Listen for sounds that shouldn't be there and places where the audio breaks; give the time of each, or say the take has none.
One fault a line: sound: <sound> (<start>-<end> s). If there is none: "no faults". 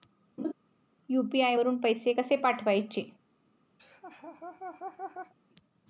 sound: laugh (0.4-0.5 s)
sound: laugh (3.8-5.3 s)